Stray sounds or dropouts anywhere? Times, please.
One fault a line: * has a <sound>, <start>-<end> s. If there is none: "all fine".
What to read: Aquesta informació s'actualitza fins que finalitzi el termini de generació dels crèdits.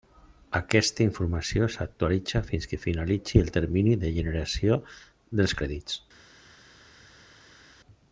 all fine